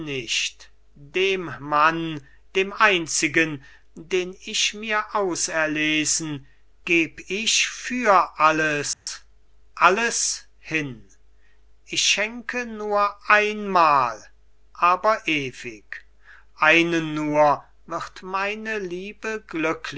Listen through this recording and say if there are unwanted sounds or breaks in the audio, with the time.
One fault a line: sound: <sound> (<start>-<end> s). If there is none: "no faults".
sound: dropout (8.9-9.1 s)